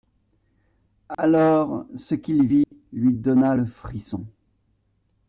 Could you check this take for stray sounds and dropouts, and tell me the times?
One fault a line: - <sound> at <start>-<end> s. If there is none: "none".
- dropout at 1.1-1.2 s
- dropout at 2.6-2.7 s